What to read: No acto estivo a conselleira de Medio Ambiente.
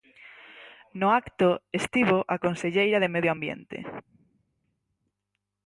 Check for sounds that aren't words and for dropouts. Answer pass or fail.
pass